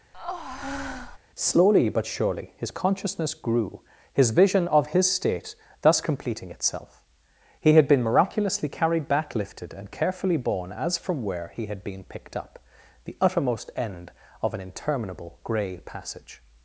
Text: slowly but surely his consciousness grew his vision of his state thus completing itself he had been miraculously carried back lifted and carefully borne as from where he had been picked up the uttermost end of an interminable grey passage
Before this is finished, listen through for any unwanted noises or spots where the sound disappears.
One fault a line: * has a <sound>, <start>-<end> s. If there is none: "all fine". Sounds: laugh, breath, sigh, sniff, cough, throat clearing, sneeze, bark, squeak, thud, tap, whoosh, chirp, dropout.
* has a breath, 0.1-1.2 s